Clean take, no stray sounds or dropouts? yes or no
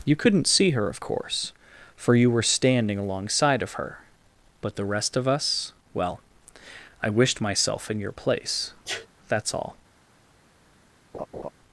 no